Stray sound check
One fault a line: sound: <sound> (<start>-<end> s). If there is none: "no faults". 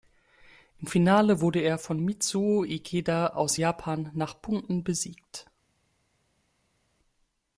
no faults